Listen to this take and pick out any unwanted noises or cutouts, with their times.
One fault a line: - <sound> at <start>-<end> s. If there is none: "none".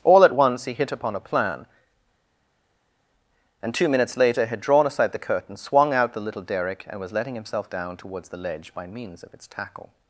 none